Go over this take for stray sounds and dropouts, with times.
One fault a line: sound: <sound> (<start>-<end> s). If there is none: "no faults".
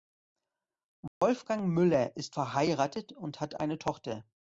sound: dropout (1.1-1.2 s)